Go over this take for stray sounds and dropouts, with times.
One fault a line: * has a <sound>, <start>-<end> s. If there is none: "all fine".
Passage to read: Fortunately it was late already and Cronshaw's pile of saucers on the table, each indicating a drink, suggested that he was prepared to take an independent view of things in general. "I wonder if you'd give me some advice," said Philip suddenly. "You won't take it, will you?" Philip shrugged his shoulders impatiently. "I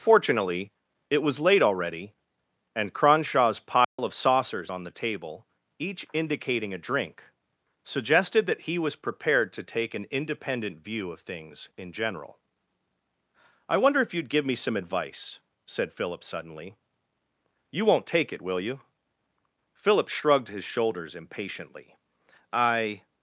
* has a dropout, 3.8-4.0 s